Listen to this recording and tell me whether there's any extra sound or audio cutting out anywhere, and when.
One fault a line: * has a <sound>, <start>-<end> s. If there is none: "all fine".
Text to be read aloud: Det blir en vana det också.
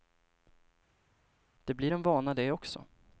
all fine